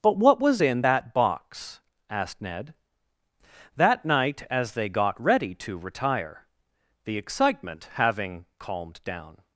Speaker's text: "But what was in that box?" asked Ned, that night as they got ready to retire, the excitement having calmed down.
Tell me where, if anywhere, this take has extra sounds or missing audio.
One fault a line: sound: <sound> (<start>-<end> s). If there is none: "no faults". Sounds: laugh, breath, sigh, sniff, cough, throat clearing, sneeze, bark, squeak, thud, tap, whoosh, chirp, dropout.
no faults